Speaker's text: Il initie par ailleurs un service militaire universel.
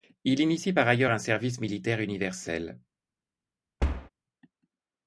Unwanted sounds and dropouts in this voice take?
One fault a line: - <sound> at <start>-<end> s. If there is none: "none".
- thud at 3.8-4.1 s